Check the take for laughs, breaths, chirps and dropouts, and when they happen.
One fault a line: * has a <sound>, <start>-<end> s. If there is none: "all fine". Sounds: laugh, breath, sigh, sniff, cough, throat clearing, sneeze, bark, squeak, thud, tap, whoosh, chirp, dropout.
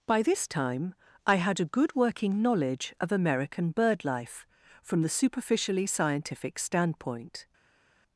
all fine